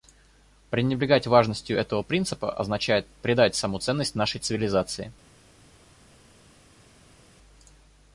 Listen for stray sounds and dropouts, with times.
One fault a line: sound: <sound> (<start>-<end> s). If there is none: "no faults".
no faults